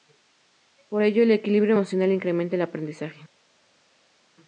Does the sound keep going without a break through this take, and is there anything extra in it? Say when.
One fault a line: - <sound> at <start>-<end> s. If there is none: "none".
none